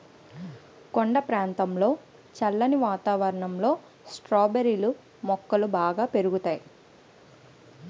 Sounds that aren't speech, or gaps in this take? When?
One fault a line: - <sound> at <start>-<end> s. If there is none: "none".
none